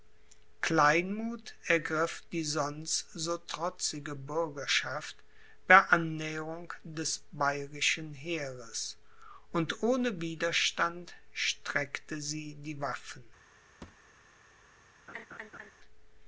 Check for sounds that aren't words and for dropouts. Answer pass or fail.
fail